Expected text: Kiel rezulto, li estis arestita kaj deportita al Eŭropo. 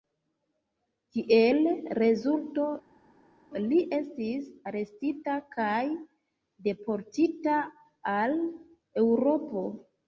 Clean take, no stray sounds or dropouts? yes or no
yes